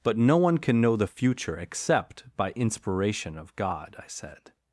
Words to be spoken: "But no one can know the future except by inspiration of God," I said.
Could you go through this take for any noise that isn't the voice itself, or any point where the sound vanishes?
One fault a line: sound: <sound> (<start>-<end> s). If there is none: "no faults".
no faults